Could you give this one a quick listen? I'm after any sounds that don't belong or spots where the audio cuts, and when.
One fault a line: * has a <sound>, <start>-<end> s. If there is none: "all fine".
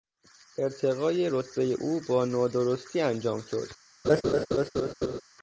* has a laugh, 4.0-5.2 s